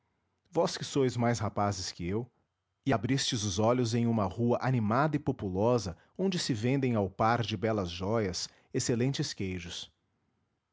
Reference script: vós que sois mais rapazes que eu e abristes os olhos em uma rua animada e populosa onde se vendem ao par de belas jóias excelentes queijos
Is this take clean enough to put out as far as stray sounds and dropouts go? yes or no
yes